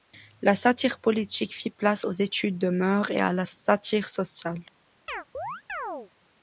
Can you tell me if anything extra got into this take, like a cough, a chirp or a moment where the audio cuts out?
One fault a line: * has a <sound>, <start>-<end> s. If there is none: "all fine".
* has a chirp, 5.1-6.1 s